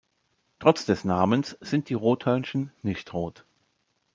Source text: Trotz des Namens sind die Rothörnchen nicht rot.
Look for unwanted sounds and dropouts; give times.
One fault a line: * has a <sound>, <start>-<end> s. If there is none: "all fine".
all fine